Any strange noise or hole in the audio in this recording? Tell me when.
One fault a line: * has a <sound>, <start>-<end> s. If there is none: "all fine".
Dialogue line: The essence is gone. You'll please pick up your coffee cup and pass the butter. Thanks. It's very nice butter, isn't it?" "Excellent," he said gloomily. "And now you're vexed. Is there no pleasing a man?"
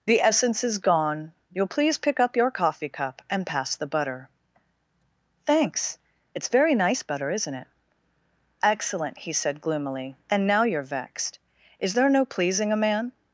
all fine